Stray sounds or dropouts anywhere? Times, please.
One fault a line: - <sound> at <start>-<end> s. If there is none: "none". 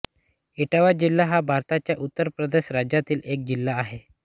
none